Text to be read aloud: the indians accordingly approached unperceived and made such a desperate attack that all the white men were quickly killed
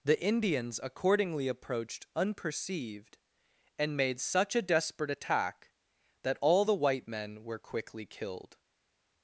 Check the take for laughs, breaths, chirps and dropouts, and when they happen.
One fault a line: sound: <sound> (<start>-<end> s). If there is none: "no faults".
no faults